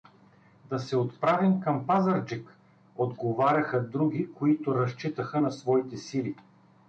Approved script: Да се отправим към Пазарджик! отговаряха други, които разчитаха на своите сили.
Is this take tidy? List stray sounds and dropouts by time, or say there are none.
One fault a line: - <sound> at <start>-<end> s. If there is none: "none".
none